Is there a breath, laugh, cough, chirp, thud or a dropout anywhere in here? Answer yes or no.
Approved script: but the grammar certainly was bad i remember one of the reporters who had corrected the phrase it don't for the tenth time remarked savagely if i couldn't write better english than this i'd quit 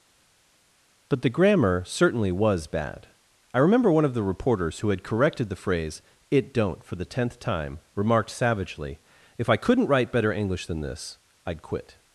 no